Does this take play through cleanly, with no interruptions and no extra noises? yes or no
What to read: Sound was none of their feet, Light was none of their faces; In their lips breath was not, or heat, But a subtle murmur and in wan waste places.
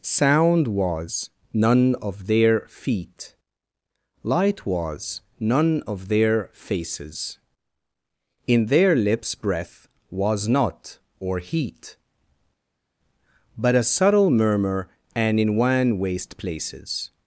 yes